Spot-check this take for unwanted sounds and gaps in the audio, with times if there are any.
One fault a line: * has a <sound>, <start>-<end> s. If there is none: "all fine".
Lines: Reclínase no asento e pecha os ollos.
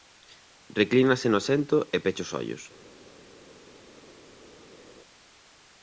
all fine